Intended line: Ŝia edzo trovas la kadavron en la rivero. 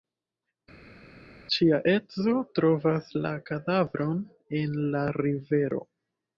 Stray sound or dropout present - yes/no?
no